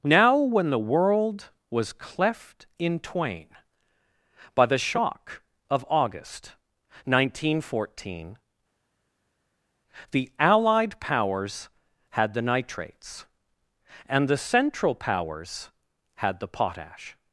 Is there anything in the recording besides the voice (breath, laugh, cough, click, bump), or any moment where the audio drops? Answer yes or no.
no